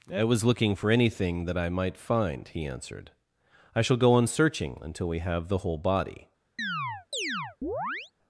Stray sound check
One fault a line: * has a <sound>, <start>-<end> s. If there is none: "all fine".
* has a chirp, 6.6-8.1 s